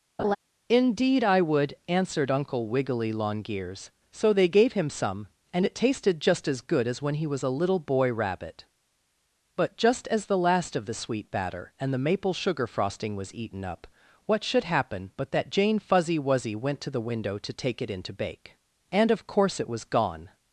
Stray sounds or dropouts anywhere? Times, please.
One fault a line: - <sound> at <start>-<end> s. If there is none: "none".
- laugh at 0.2-0.4 s